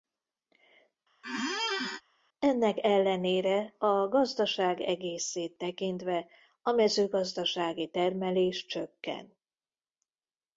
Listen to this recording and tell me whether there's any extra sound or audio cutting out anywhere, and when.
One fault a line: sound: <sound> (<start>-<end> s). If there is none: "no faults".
sound: squeak (1.2-2.0 s)